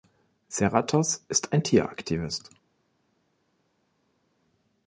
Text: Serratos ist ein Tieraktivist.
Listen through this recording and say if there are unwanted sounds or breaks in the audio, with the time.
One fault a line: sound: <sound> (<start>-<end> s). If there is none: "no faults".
no faults